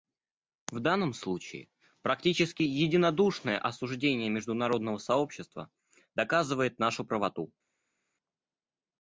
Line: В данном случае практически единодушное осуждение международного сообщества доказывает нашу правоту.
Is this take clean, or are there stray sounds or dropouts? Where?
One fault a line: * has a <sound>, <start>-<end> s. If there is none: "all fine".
all fine